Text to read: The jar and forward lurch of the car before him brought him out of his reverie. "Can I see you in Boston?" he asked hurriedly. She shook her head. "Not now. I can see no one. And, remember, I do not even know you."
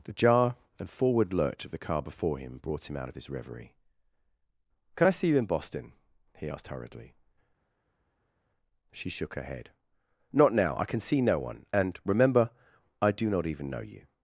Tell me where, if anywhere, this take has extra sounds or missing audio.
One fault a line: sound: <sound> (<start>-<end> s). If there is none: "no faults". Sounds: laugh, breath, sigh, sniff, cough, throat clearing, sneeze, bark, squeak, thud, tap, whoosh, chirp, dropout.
no faults